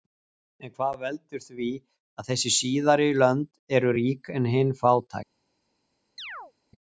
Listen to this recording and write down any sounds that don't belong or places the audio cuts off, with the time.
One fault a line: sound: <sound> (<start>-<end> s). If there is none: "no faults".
sound: chirp (6.2-6.5 s)